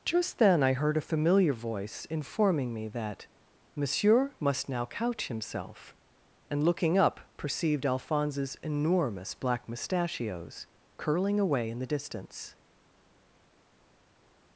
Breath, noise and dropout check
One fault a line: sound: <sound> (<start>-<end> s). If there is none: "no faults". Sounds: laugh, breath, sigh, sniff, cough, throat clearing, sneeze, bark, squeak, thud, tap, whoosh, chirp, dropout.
no faults